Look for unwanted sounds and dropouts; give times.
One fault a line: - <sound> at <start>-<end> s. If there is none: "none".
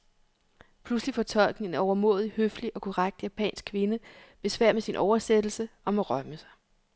none